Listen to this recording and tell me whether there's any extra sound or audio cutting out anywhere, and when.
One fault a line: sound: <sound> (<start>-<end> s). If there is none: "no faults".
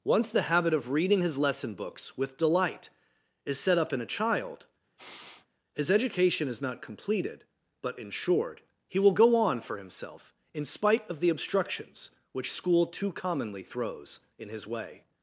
sound: sniff (5.0-5.5 s)